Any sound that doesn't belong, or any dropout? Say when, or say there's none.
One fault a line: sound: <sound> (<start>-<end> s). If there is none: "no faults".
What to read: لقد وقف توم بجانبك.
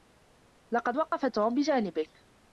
sound: dropout (1.1-1.1 s)